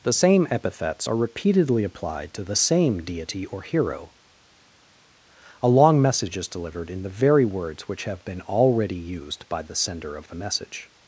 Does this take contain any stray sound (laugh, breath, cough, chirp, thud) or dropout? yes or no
no